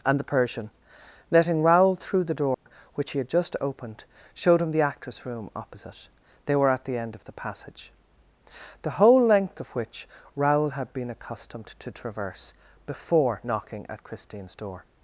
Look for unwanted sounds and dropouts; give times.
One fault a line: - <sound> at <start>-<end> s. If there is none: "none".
- dropout at 2.5-2.7 s